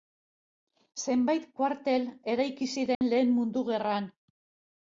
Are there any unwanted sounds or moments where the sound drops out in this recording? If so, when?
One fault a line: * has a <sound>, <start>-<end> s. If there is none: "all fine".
* has a dropout, 2.9-3.0 s